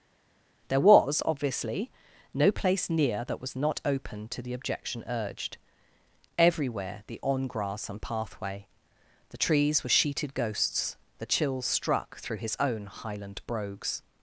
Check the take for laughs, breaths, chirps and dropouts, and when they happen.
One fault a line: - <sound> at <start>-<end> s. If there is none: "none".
none